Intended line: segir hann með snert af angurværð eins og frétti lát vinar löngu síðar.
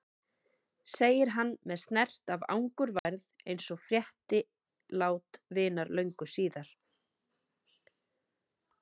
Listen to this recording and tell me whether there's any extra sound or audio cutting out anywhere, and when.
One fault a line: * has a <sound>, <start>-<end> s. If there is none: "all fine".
* has a dropout, 3.0-3.1 s